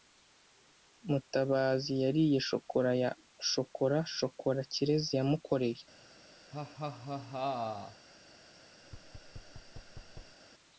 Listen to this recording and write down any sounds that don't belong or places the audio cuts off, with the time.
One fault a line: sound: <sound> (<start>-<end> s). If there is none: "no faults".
sound: laugh (6.5-8.1 s)
sound: thud (8.8-10.4 s)